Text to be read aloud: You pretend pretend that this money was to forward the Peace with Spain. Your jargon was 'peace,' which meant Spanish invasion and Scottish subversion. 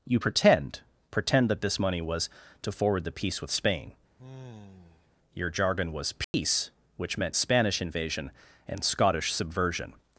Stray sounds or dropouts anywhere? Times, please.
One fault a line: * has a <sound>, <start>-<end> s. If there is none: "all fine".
* has a sigh, 4.2-5.1 s
* has a dropout, 6.2-6.3 s